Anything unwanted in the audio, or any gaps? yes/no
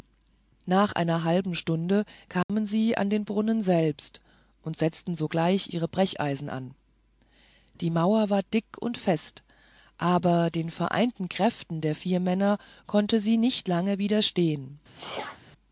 yes